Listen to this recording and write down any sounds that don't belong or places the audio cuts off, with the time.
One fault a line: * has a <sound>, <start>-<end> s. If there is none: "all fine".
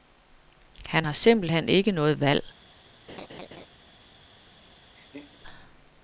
* has a laugh, 3.1-3.7 s
* has a laugh, 4.9-5.4 s